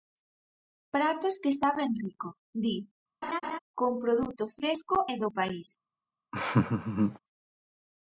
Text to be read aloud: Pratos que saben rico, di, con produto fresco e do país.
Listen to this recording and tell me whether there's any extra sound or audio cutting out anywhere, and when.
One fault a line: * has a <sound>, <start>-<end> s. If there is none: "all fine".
* has a laugh, 3.2-3.6 s
* has a laugh, 6.3-7.2 s